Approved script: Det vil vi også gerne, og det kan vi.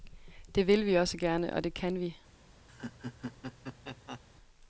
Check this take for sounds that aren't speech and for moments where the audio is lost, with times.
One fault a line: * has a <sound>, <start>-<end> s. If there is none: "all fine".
* has a laugh, 2.7-4.2 s